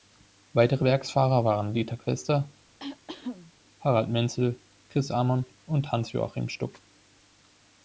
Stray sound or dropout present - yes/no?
yes